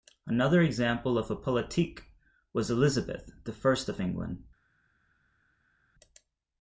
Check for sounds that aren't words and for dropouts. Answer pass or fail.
pass